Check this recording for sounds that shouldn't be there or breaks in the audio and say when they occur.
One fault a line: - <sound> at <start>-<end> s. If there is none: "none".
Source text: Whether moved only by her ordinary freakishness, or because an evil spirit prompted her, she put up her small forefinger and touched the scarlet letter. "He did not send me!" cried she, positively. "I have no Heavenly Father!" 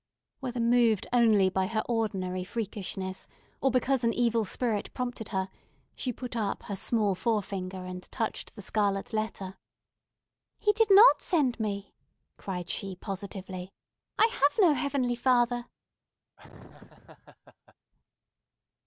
- laugh at 16.4-17.7 s